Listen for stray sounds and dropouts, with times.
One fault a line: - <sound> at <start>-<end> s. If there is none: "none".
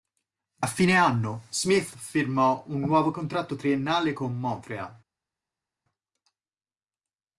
none